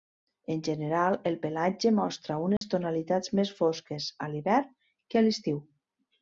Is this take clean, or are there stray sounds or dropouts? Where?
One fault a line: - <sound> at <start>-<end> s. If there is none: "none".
- dropout at 2.6-2.6 s